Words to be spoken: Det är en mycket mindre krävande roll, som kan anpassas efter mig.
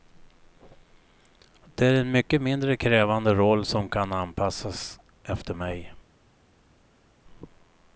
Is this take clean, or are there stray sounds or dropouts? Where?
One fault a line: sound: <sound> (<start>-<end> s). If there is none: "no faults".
no faults